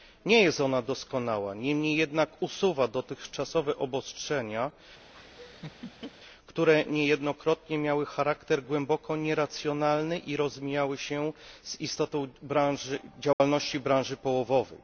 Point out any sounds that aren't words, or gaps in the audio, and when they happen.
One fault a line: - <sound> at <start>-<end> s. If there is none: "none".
- laugh at 5.1-6.1 s
- dropout at 13.3-13.4 s